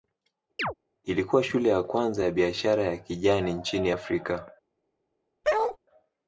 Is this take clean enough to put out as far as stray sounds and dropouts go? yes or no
no